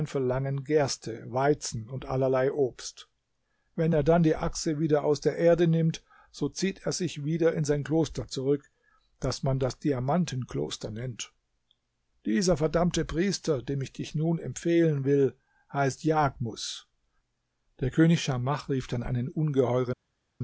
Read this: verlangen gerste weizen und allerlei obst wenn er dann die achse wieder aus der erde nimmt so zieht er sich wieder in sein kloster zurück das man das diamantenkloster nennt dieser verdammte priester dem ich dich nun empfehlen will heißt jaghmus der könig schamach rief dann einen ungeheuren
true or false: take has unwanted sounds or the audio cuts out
false